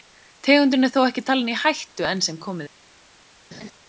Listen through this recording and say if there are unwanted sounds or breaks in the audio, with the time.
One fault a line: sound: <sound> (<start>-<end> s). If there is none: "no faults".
sound: laugh (3.5-3.7 s)